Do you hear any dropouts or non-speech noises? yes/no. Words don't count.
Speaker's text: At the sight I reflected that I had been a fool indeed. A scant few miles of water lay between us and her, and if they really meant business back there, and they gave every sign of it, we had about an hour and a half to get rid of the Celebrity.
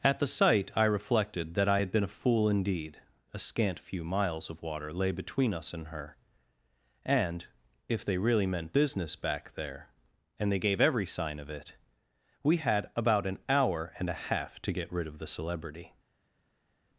no